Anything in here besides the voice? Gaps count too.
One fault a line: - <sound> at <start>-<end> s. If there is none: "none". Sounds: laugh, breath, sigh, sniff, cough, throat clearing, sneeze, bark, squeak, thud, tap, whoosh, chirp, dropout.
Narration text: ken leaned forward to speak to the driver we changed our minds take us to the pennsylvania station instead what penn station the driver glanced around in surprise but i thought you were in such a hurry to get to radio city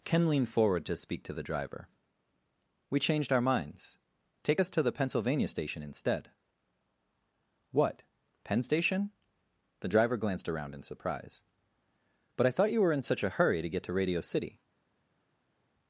none